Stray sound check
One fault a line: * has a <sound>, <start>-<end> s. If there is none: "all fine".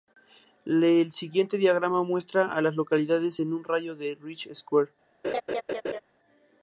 * has a laugh, 5.2-6.0 s